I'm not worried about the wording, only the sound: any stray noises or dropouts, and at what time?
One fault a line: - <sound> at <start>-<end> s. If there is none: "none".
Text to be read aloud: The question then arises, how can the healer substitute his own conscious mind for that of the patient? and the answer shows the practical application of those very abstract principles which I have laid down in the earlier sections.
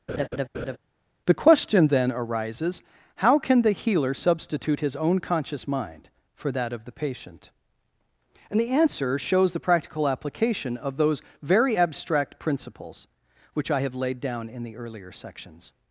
- laugh at 0.1-0.8 s